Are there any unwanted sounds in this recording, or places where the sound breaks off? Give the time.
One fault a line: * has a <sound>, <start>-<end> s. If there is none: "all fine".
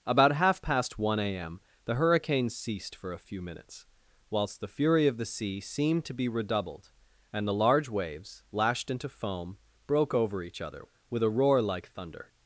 all fine